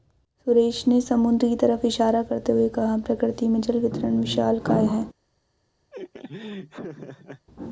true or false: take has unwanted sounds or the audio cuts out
true